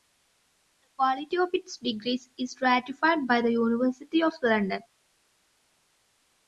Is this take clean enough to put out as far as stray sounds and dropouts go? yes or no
yes